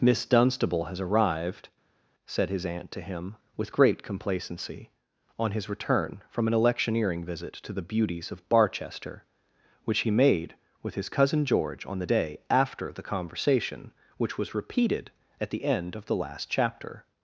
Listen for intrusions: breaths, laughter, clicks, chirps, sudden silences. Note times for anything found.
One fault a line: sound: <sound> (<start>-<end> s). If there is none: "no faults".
no faults